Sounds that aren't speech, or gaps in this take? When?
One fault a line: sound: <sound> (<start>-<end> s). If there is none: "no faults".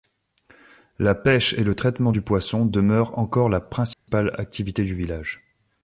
sound: dropout (3.9-4.1 s)